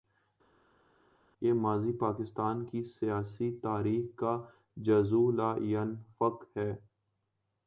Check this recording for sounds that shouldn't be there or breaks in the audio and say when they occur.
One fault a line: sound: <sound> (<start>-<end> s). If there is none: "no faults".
no faults